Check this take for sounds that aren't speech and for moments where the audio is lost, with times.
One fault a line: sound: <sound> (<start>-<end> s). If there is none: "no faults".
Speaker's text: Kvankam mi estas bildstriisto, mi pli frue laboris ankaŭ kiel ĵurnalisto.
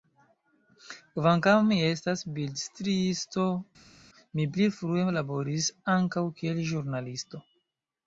no faults